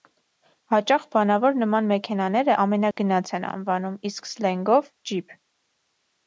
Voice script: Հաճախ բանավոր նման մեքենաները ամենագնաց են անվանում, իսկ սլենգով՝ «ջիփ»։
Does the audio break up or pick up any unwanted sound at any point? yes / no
yes